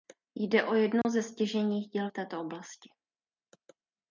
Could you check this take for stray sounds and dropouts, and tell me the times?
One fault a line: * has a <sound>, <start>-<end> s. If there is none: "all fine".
* has a dropout, 1.0-1.0 s